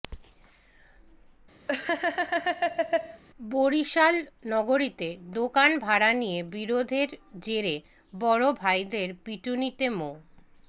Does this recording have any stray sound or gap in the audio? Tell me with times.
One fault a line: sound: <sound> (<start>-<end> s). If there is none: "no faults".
sound: laugh (1.7-3.2 s)